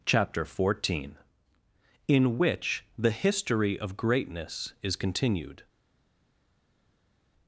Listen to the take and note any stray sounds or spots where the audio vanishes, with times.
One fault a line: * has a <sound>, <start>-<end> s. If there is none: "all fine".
all fine